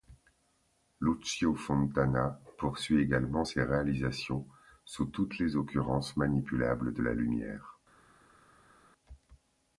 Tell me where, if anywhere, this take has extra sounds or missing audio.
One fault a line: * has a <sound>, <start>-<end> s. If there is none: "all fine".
all fine